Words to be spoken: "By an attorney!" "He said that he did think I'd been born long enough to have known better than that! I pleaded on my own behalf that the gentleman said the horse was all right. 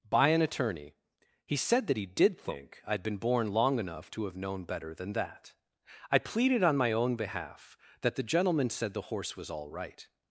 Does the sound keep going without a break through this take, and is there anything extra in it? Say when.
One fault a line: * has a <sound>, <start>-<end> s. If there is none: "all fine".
all fine